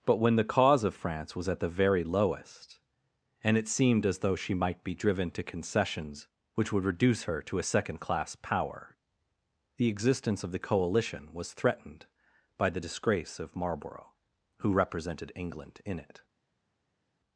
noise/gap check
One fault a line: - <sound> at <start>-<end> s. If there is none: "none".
none